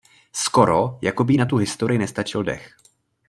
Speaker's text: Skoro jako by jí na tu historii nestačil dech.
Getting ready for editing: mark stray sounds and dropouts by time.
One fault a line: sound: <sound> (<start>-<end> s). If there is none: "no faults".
no faults